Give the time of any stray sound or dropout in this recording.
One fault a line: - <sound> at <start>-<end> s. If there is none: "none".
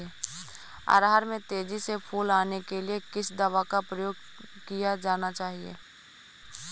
none